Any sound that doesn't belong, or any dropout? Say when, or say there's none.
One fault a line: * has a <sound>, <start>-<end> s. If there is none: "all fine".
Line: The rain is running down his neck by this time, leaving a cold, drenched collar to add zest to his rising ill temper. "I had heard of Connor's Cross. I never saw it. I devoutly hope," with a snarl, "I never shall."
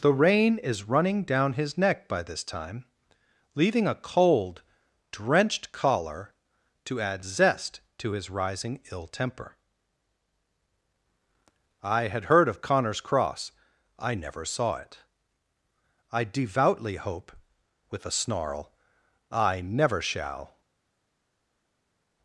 all fine